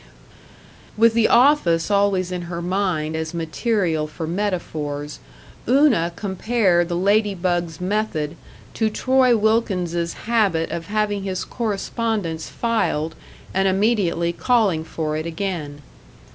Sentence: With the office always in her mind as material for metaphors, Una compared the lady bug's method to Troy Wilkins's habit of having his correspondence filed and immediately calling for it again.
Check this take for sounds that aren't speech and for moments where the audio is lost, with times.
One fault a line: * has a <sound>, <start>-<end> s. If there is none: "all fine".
all fine